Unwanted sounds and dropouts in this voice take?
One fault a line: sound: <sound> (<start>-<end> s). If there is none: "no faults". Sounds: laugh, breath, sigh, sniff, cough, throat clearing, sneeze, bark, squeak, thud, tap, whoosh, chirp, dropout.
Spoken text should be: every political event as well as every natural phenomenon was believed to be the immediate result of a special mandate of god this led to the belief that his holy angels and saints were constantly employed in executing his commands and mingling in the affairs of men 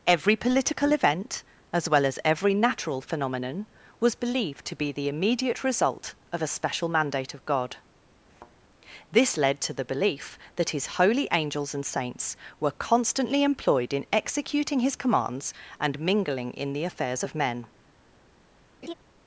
sound: thud (8.3-8.5 s)
sound: laugh (18.8-18.9 s)